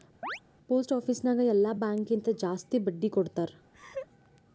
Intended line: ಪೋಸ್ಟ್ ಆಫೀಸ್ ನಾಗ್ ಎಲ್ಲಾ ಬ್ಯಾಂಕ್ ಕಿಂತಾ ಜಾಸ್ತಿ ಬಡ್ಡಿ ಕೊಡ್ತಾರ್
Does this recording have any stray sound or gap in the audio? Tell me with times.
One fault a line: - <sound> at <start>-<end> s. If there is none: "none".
- chirp at 0.2-0.4 s
- laugh at 3.7-4.1 s